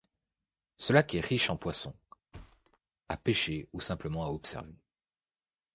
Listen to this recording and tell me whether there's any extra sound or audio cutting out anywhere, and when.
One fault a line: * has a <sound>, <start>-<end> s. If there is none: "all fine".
* has a thud, 2.3-2.8 s